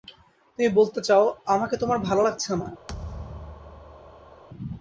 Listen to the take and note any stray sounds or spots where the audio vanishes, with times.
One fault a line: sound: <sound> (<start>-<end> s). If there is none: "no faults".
sound: thud (2.9-4.4 s)